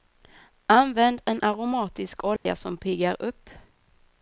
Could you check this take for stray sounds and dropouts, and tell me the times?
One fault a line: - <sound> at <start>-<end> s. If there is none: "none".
- dropout at 2.4-2.5 s